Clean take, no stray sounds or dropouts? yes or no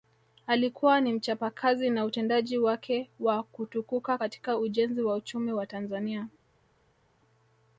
yes